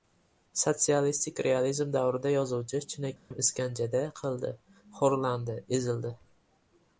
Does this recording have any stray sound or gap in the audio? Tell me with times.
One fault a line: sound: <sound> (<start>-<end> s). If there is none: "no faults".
sound: dropout (3.2-3.3 s)